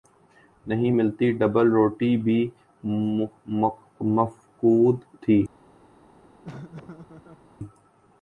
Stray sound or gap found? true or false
true